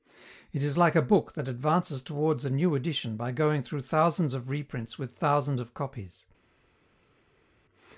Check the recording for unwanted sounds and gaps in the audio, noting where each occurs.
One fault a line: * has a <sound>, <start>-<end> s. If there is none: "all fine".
all fine